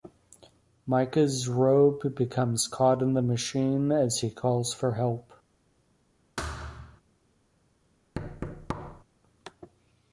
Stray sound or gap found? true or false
true